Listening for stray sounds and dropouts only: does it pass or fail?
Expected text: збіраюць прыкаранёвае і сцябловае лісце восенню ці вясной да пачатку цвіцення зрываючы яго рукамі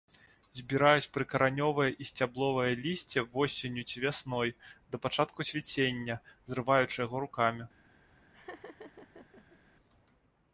fail